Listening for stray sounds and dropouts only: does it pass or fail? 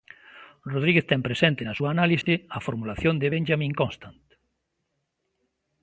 fail